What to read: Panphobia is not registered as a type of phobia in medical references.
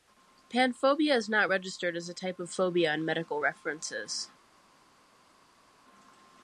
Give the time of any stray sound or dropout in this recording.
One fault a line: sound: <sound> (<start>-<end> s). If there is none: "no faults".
no faults